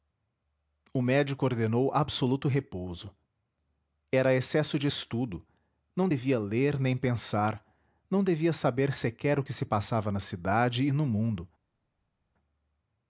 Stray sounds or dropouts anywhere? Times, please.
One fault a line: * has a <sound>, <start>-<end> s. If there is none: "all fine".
all fine